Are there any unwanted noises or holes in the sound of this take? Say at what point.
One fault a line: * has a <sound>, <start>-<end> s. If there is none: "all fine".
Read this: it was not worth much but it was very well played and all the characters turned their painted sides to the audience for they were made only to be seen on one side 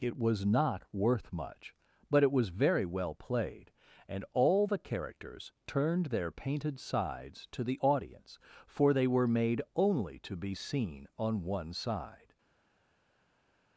all fine